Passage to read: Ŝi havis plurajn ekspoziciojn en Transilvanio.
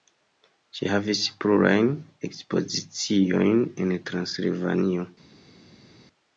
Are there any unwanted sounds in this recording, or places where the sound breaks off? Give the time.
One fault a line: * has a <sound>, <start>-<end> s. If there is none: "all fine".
all fine